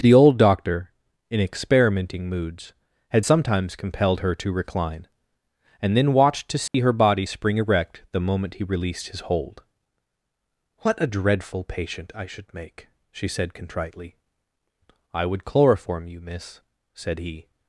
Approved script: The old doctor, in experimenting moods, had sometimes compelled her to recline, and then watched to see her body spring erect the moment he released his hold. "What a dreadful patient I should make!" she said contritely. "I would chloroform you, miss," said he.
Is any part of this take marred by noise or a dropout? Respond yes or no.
yes